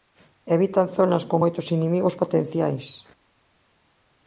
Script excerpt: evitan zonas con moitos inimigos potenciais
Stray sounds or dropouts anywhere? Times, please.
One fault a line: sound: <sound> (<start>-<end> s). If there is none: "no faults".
no faults